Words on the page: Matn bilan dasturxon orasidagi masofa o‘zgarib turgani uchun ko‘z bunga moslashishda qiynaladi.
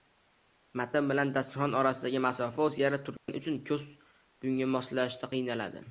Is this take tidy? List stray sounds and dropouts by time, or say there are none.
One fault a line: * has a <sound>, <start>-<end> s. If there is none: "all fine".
* has a dropout, 3.2-3.3 s